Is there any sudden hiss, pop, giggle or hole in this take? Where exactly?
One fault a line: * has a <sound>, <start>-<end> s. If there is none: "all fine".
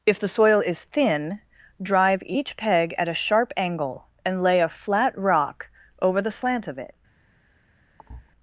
* has a thud, 8.0-8.3 s